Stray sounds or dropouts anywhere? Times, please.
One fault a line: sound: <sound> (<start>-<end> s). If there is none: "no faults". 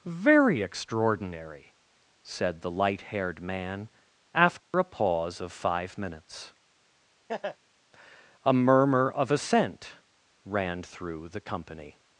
sound: dropout (4.6-4.7 s)
sound: laugh (7.3-7.6 s)